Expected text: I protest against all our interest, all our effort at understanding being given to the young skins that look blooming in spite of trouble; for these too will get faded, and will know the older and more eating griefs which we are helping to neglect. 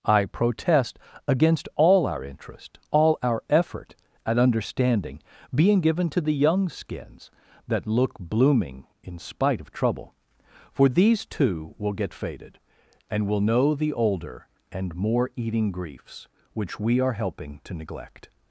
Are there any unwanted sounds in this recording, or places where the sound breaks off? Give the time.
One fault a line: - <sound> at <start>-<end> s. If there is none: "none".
none